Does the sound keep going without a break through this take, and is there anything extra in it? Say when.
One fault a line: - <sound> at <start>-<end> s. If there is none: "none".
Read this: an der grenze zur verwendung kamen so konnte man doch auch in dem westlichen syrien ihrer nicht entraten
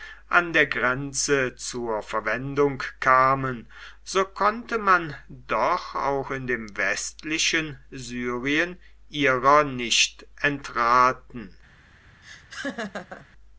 - laugh at 12.2-13.3 s